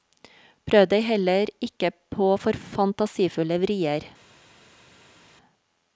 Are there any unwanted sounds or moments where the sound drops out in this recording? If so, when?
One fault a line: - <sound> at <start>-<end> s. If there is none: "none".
none